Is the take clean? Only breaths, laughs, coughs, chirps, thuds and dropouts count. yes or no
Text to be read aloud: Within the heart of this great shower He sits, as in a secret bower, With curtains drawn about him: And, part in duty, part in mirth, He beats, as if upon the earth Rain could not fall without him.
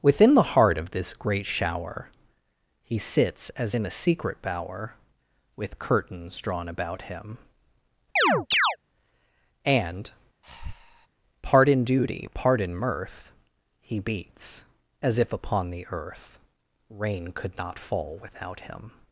no